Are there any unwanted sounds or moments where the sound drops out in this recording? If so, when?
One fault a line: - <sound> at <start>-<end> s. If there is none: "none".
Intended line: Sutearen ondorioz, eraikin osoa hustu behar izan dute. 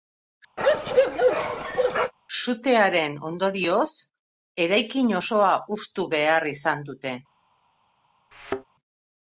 - bark at 0.6-2.1 s
- thud at 8.3-8.6 s